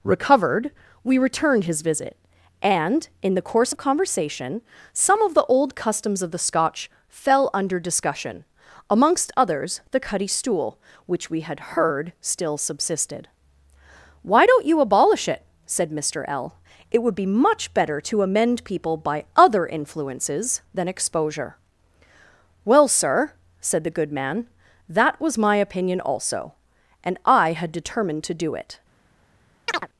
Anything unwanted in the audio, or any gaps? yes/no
yes